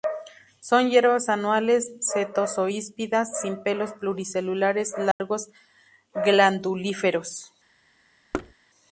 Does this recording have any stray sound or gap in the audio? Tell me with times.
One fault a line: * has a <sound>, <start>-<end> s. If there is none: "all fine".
* has a dropout, 5.1-5.2 s
* has a thud, 8.3-8.5 s